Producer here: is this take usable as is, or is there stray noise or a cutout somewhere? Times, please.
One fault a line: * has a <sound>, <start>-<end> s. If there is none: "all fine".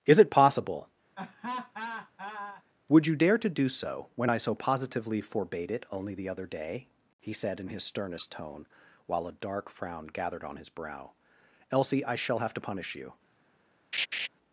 * has a laugh, 1.1-2.6 s
* has a laugh, 13.9-14.3 s